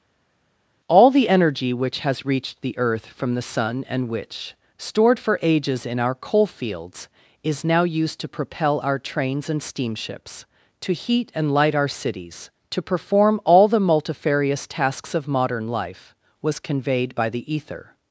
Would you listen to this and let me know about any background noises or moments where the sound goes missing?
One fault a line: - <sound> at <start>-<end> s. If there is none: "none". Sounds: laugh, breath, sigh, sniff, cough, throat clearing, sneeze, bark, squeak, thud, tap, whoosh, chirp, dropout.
none